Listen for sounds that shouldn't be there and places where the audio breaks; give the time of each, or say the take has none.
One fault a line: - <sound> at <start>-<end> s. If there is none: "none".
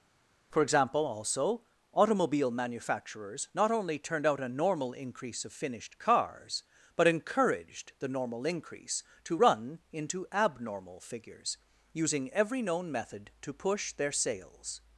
none